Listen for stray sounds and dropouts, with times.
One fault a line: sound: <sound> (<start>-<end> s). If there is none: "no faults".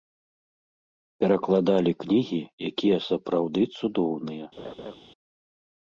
sound: laugh (4.6-5.0 s)